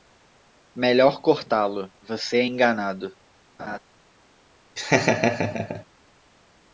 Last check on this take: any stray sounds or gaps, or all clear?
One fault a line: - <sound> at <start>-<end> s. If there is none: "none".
- laugh at 3.6-3.8 s
- laugh at 4.8-5.8 s